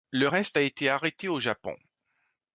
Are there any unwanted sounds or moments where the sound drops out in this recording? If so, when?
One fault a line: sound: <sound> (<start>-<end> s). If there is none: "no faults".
no faults